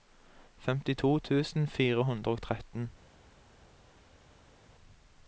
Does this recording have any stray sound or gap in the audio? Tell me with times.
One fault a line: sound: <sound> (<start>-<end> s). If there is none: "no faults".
no faults